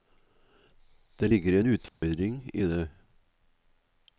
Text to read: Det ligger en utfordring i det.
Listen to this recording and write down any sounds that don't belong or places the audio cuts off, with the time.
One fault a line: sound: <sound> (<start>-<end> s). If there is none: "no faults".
sound: dropout (1.9-2.0 s)